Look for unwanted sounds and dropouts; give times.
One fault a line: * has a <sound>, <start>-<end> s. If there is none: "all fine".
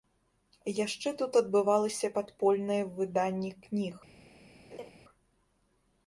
* has a laugh, 4.7-4.9 s